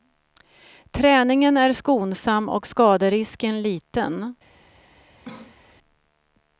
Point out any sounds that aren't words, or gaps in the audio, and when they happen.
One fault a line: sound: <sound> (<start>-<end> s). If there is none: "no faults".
sound: cough (5.2-5.7 s)